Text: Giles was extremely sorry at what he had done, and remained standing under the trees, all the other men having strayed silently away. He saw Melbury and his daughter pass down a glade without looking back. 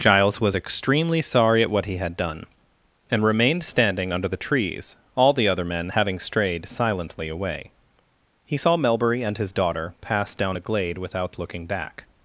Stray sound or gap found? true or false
false